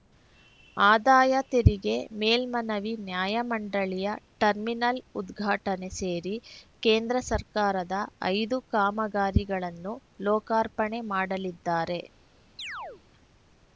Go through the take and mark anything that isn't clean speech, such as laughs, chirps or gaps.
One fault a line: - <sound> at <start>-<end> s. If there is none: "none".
- chirp at 12.6-13.0 s